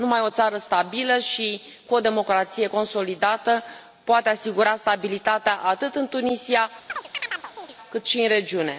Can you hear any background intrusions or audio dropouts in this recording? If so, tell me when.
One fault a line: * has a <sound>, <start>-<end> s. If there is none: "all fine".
* has a chirp, 6.9-7.7 s